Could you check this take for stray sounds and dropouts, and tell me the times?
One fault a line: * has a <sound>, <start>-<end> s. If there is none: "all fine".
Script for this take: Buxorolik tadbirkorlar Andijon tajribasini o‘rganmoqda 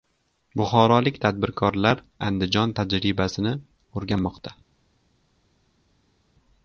all fine